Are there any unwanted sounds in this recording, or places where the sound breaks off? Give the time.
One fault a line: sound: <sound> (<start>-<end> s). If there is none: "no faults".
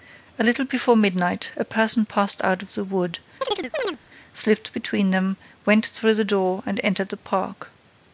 sound: chirp (3.4-4.0 s)